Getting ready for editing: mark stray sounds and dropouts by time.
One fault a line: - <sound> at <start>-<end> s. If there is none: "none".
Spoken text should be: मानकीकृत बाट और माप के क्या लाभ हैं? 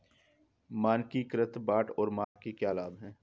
- dropout at 2.2-2.4 s